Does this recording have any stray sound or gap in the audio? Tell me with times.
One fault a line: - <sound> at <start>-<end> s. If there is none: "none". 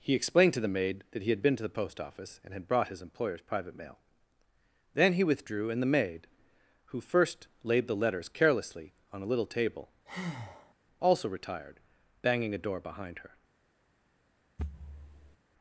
- breath at 10.1-10.7 s
- thud at 14.6-15.4 s